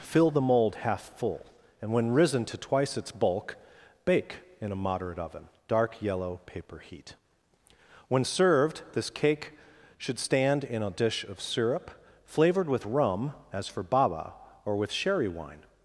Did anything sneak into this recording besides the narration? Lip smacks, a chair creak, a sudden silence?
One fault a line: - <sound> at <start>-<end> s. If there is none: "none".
none